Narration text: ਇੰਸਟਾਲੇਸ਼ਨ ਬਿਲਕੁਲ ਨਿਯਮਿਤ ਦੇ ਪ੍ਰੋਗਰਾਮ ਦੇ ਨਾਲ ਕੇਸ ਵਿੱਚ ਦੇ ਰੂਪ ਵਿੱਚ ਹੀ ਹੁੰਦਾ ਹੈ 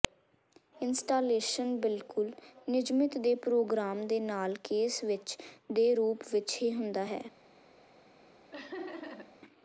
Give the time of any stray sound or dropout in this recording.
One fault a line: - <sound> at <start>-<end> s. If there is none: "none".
- laugh at 8.5-9.4 s